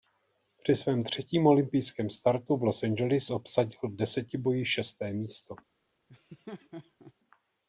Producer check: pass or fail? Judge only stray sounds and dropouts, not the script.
fail